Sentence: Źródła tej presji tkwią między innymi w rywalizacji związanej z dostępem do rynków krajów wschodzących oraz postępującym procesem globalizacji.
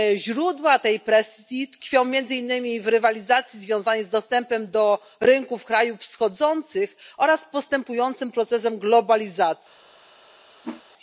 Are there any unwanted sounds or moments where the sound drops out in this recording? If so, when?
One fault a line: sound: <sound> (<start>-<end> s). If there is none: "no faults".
sound: whoosh (10.6-10.8 s)